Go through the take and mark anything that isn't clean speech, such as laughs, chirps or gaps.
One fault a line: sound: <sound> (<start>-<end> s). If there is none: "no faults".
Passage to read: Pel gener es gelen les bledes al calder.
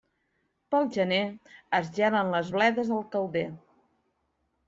no faults